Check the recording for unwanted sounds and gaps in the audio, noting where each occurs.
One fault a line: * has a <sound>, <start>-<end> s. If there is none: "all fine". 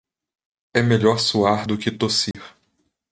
* has a dropout, 2.3-2.3 s